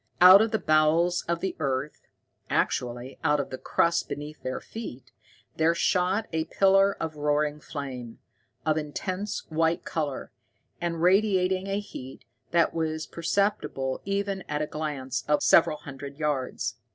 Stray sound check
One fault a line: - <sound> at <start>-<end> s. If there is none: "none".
none